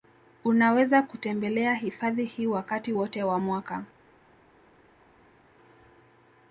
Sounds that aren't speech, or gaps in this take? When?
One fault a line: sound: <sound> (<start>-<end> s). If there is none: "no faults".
no faults